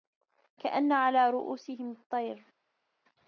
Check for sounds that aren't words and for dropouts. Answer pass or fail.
pass